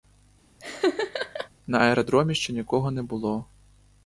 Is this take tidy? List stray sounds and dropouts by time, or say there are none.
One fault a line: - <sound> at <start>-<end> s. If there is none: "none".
- laugh at 0.6-1.5 s